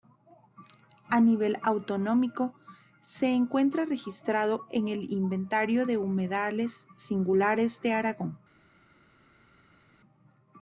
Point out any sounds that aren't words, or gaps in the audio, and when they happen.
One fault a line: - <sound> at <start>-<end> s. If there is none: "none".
none